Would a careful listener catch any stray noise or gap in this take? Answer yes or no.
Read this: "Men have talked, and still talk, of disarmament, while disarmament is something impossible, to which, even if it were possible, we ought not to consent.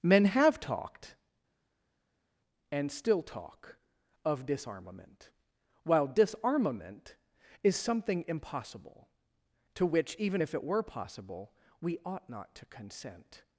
no